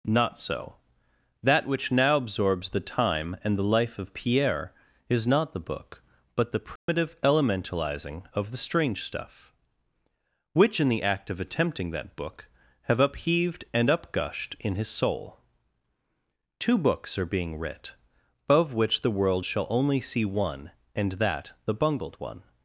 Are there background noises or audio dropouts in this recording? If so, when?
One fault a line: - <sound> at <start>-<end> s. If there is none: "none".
- dropout at 6.8-6.9 s